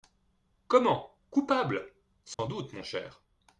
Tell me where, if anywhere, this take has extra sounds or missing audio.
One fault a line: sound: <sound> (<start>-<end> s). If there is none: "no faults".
sound: dropout (2.3-2.4 s)